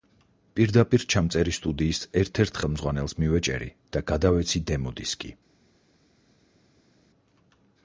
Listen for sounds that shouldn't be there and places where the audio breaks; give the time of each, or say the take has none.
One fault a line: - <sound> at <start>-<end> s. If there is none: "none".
none